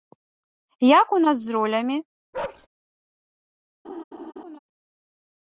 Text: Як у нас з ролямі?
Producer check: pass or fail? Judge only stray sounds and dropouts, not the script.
fail